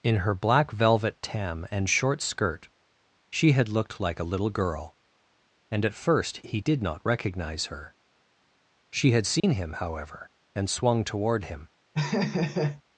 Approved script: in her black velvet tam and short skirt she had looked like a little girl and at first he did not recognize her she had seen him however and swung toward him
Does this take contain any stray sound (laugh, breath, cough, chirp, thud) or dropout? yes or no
yes